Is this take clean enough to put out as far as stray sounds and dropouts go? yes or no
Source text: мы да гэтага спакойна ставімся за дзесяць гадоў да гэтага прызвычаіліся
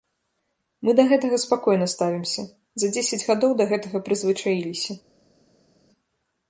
yes